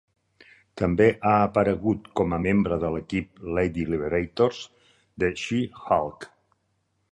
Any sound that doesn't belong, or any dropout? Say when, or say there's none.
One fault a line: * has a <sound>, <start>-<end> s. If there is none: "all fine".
all fine